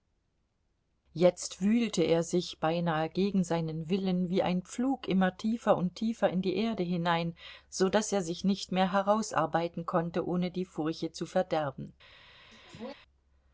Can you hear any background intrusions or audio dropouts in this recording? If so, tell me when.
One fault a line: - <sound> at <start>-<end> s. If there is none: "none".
- sneeze at 12.5-12.9 s